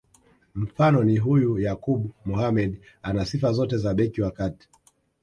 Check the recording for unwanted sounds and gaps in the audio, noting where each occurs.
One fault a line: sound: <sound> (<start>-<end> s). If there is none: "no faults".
no faults